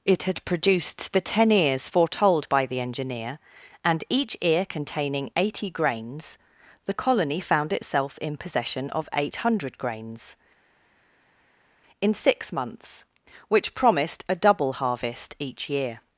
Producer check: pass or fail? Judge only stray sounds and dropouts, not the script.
pass